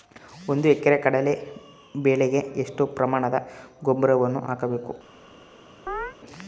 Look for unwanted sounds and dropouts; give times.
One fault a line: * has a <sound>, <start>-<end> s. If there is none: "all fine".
* has a chirp, 5.9-6.2 s